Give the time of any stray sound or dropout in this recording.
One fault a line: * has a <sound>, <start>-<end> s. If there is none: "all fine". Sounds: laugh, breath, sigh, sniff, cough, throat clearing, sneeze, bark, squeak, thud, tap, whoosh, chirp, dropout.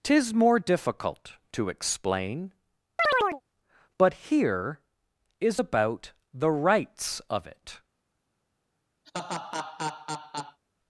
* has a chirp, 3.0-3.4 s
* has a laugh, 9.0-10.6 s